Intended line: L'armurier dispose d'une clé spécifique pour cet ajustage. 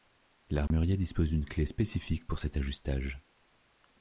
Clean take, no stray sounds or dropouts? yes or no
no